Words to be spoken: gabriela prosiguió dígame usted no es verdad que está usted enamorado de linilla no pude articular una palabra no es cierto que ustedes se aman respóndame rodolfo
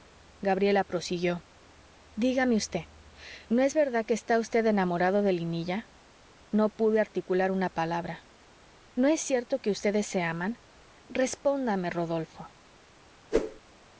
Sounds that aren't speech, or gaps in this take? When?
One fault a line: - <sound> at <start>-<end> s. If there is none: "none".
- whoosh at 13.3-13.6 s